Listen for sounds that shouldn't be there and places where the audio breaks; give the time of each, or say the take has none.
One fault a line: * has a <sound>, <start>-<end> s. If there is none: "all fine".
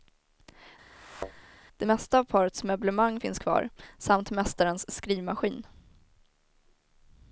* has a thud, 0.9-1.4 s